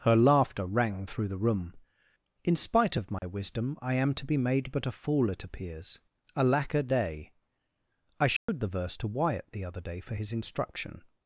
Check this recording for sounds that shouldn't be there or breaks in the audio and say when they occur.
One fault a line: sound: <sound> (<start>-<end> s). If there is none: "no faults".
sound: dropout (3.2-3.2 s)
sound: dropout (8.4-8.5 s)